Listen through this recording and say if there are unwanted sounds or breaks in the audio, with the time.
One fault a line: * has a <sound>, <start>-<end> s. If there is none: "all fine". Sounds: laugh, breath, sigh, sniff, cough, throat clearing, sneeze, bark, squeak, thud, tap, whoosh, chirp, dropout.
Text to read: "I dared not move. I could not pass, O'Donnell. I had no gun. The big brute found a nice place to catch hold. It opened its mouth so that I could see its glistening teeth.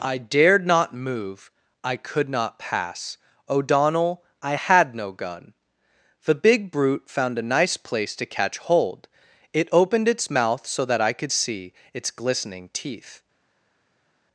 all fine